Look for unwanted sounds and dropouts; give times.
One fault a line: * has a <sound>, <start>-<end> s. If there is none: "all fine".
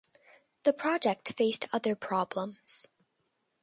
all fine